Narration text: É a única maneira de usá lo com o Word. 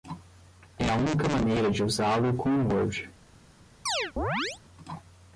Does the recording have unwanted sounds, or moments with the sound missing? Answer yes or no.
yes